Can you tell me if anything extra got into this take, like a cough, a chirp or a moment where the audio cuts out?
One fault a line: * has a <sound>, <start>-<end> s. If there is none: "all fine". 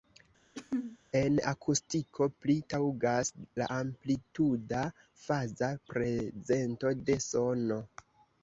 * has a throat clearing, 0.5-1.0 s